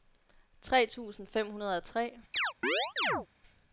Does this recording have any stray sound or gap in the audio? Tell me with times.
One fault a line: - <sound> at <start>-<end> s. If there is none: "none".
- chirp at 2.3-3.3 s